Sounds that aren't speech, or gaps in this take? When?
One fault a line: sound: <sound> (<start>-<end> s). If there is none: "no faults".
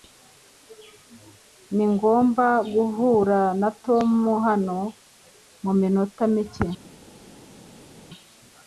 no faults